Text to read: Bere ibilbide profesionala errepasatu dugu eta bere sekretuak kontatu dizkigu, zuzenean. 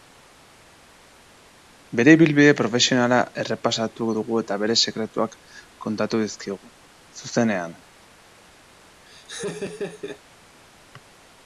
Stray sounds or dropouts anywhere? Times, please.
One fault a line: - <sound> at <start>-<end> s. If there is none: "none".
- laugh at 9.1-10.2 s